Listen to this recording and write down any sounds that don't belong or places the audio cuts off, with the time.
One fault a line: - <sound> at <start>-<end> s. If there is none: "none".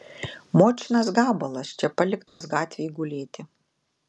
- dropout at 2.3-2.4 s